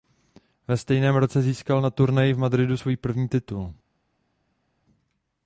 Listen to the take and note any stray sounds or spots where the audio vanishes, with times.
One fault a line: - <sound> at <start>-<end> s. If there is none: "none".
none